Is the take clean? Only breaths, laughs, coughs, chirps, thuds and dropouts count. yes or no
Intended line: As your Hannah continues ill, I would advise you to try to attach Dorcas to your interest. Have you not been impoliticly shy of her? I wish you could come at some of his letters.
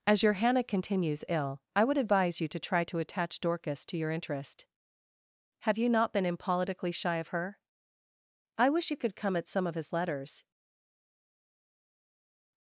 yes